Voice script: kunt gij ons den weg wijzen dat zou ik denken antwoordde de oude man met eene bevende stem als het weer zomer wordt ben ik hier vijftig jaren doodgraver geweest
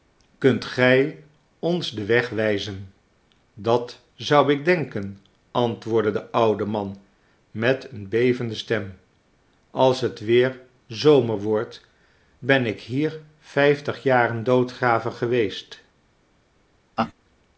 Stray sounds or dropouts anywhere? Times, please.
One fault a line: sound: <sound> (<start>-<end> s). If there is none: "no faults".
sound: laugh (17.0-17.1 s)